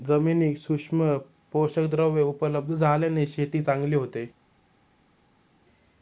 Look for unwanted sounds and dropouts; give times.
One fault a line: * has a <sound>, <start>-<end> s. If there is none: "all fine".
all fine